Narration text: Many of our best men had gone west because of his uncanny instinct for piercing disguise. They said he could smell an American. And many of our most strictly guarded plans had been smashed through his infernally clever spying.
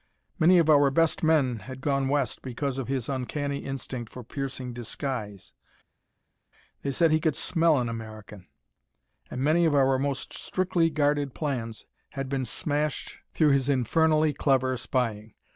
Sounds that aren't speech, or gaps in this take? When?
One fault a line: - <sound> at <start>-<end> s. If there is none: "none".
none